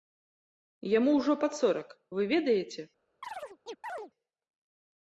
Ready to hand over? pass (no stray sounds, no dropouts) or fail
fail